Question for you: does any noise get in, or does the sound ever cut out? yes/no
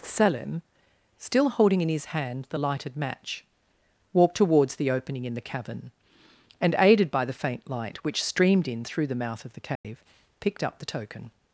yes